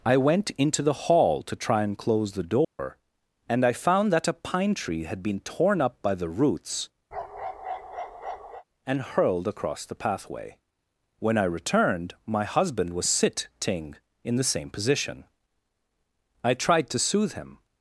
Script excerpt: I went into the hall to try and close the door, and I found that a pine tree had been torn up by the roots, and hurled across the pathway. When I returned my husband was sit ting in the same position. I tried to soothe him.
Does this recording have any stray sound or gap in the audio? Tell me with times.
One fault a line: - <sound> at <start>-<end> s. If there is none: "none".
- dropout at 2.6-2.8 s
- bark at 7.1-8.6 s